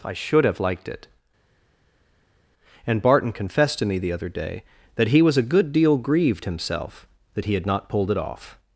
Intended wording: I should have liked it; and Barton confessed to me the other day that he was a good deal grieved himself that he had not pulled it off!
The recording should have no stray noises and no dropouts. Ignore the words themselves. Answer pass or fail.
pass